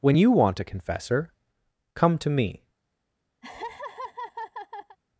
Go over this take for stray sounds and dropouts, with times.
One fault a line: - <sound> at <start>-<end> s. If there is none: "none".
- laugh at 3.4-5.0 s